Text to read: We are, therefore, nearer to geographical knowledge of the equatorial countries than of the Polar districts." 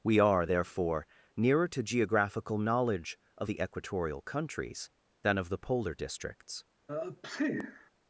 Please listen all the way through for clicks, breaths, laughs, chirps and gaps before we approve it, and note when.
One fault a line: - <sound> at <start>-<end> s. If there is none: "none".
- sneeze at 6.9-7.9 s